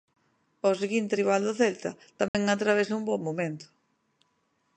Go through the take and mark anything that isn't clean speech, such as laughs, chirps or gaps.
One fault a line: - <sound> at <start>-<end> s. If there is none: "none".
- dropout at 2.3-2.3 s